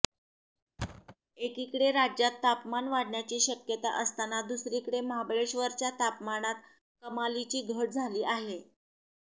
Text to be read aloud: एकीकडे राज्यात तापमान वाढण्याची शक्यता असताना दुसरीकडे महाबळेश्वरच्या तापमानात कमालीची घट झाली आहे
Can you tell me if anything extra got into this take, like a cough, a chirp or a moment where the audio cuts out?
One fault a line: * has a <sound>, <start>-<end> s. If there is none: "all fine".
* has a thud, 0.8-1.2 s